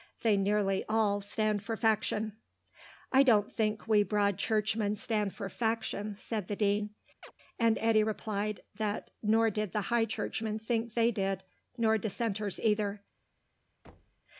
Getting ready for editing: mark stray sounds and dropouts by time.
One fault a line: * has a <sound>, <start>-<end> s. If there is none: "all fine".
* has a chirp, 7.2-7.3 s
* has a thud, 13.8-14.2 s